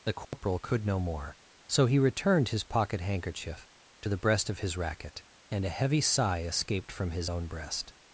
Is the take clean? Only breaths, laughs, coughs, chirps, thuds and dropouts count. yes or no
no